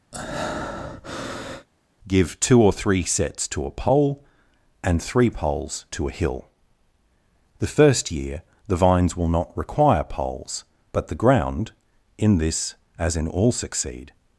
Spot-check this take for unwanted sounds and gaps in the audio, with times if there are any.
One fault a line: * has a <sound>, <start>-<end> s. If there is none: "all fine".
* has a breath, 0.1-1.7 s